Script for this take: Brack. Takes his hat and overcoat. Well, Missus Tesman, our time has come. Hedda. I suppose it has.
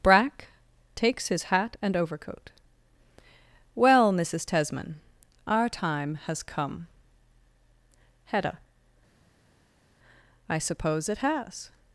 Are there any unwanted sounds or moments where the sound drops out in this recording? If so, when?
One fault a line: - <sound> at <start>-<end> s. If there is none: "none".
none